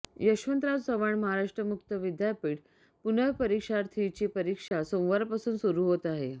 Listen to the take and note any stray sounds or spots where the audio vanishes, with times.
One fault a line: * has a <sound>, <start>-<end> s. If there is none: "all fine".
* has a dropout, 4.7-4.7 s